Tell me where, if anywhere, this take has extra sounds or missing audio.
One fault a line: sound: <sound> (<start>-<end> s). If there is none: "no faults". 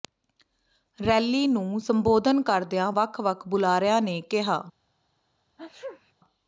sound: sneeze (5.6-6.1 s)